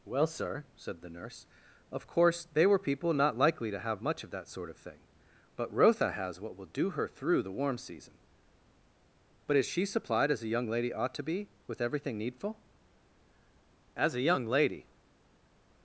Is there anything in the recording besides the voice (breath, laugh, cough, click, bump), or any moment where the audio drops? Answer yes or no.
no